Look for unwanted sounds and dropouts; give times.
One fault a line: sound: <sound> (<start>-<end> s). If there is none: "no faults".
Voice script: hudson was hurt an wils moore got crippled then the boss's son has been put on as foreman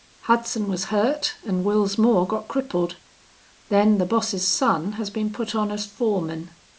no faults